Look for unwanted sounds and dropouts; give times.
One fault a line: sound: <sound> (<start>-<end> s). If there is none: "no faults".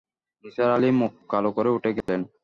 sound: dropout (2.0-2.1 s)